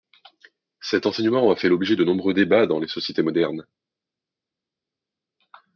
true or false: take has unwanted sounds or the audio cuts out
false